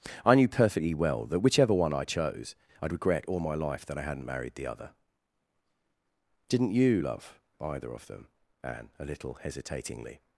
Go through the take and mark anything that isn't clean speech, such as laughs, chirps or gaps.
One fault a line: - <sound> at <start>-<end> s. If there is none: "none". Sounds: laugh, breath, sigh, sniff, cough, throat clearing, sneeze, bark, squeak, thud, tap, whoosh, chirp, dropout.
none